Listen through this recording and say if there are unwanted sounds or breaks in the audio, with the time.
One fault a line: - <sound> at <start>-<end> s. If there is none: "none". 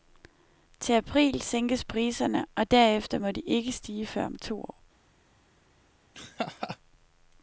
- laugh at 6.1-6.8 s